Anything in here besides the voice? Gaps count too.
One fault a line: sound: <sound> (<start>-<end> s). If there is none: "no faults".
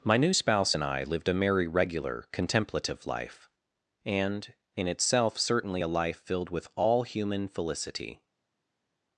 no faults